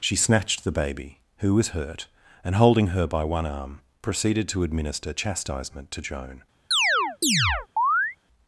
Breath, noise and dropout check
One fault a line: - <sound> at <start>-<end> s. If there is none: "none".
- chirp at 6.7-8.2 s